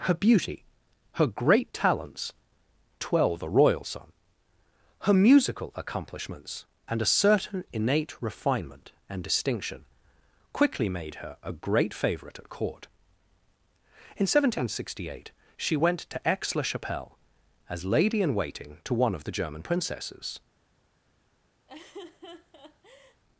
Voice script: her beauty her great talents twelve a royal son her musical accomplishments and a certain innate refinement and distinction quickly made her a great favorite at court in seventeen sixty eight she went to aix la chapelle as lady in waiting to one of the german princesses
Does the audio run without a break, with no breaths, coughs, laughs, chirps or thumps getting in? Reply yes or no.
no